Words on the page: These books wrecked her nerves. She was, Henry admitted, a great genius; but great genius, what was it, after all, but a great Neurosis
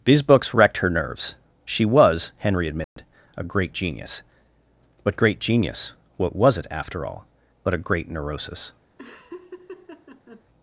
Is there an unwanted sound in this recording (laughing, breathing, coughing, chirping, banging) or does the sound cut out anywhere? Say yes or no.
yes